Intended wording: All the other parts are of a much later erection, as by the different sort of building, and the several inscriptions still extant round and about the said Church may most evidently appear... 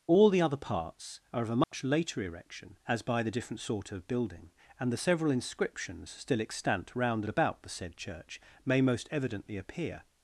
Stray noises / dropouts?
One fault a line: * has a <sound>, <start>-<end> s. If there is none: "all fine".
* has a dropout, 1.6-1.7 s